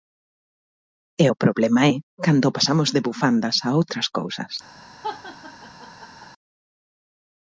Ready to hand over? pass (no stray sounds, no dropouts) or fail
fail